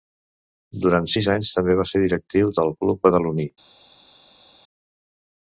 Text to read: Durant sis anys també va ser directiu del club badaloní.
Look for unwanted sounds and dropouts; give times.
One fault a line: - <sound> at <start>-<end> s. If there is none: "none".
none